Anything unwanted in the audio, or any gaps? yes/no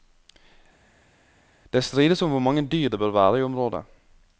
no